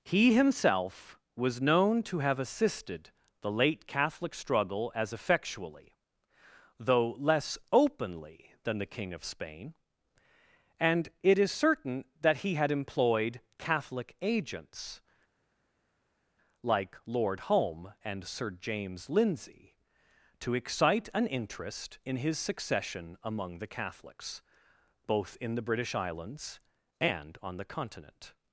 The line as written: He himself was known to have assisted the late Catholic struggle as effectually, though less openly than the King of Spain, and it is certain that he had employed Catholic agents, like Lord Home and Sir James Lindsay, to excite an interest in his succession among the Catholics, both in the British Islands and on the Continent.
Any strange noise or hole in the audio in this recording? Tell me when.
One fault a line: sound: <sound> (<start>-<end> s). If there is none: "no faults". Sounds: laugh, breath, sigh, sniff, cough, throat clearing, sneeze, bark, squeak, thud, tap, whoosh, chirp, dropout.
no faults